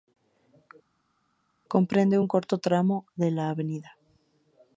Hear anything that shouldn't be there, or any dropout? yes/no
no